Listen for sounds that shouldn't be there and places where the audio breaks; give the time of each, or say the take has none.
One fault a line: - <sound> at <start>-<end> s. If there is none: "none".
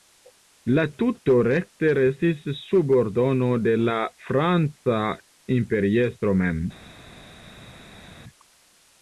none